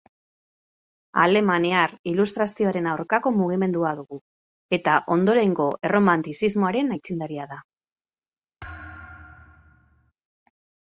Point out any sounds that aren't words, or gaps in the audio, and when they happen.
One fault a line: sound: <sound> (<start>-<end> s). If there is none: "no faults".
sound: thud (8.6-10.1 s)